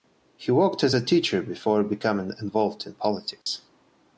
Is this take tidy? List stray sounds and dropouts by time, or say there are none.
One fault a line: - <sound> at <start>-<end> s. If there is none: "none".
- dropout at 3.4-3.5 s